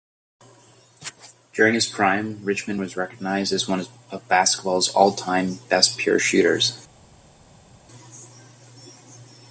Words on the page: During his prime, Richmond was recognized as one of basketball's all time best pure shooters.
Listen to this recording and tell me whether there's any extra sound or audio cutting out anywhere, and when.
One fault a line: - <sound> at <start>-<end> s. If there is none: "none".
none